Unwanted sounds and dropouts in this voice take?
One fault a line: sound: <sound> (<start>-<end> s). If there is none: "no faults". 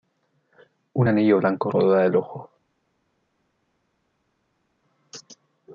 no faults